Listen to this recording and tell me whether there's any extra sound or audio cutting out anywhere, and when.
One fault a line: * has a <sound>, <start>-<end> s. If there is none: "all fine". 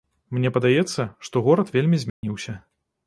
* has a dropout, 2.1-2.2 s